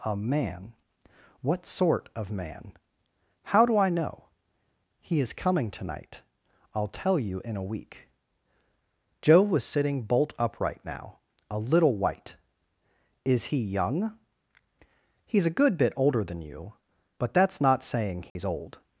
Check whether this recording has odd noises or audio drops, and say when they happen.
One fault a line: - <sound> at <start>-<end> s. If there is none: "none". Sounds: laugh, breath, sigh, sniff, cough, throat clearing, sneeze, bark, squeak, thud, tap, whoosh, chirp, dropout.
- dropout at 18.3-18.4 s